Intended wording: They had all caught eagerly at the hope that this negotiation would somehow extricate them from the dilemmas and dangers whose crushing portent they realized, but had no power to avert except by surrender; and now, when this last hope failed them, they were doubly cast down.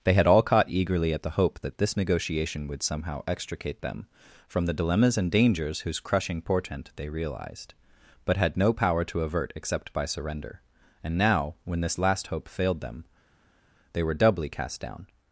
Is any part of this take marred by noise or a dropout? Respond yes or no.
no